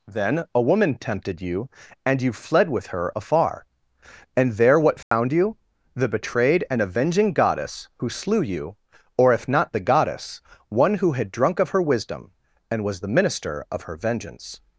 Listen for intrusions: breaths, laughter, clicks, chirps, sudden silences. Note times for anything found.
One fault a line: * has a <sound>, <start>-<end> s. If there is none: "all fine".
* has a dropout, 5.0-5.1 s